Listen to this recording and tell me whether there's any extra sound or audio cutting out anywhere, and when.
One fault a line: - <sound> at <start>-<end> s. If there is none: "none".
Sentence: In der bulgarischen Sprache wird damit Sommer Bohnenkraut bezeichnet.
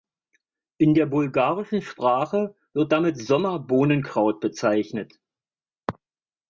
none